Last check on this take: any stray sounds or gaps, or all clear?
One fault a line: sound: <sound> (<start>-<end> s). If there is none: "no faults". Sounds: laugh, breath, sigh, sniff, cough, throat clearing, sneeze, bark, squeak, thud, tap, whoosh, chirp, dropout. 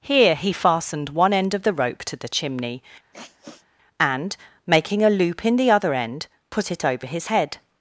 sound: sniff (3.1-3.7 s)